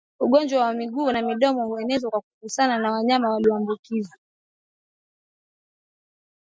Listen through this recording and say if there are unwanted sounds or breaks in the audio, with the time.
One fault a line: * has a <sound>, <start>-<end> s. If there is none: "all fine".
all fine